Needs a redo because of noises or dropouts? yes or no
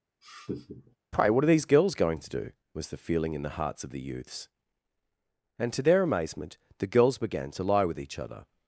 yes